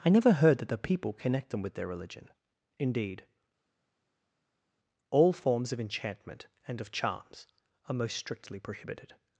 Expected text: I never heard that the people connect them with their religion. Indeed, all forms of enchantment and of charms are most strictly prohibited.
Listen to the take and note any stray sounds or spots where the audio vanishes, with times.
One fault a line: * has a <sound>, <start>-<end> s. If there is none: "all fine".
all fine